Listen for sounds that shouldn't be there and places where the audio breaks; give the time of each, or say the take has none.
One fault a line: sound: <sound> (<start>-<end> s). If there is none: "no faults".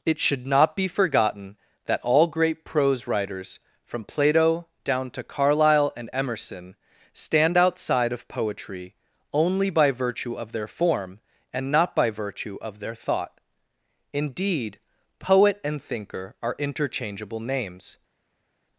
no faults